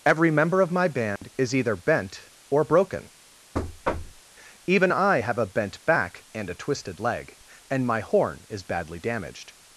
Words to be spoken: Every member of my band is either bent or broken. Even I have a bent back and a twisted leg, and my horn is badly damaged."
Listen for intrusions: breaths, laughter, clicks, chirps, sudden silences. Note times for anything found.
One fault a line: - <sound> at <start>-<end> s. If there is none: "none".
- dropout at 1.2-1.2 s
- thud at 3.5-4.2 s